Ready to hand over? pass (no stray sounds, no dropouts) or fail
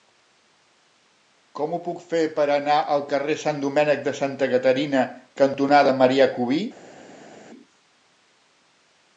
pass